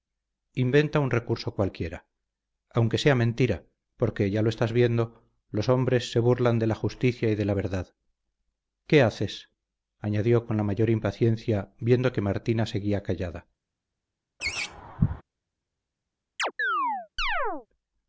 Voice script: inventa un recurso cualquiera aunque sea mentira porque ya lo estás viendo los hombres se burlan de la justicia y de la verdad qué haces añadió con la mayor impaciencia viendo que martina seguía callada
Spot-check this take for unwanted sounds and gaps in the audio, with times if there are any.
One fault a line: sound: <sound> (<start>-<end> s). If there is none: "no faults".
sound: laugh (14.4-15.2 s)
sound: chirp (16.4-17.7 s)